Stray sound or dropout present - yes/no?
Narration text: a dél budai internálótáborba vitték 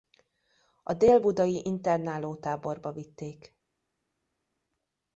no